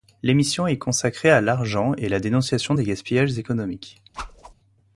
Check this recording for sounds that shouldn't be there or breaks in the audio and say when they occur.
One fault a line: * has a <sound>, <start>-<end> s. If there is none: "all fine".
* has a whoosh, 4.1-4.5 s